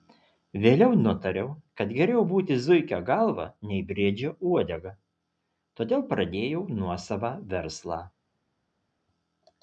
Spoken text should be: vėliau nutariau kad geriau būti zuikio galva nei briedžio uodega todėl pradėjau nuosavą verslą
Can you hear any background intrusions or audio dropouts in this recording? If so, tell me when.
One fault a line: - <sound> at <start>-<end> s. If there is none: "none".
none